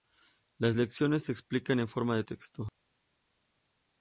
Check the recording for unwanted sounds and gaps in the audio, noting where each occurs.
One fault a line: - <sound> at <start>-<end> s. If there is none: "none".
none